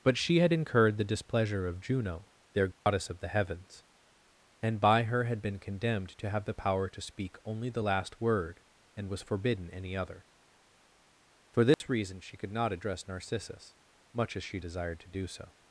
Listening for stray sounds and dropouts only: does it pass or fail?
fail